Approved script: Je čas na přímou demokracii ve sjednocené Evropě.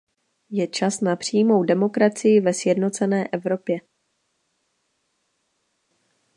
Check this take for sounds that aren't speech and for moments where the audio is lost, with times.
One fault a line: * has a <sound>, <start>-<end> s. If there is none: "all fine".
all fine